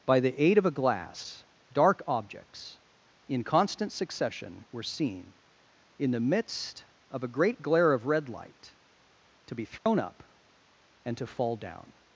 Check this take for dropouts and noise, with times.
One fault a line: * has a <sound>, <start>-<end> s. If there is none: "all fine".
* has a dropout, 9.8-9.9 s